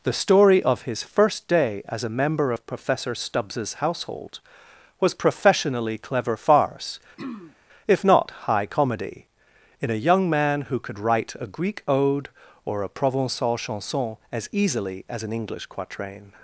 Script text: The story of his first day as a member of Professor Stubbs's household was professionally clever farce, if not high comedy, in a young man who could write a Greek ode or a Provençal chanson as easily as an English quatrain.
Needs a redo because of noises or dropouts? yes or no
yes